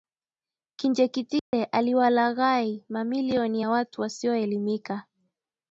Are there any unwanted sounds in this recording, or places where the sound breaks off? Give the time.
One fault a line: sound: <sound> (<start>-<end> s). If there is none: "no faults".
sound: dropout (1.4-1.5 s)